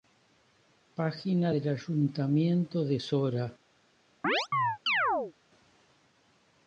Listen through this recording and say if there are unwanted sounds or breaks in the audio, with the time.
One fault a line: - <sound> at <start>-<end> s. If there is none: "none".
- chirp at 4.2-5.3 s